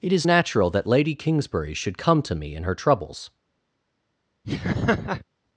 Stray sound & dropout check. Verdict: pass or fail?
fail